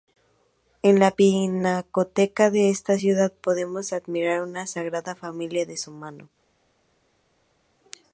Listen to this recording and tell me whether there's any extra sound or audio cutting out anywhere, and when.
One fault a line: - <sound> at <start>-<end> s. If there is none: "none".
none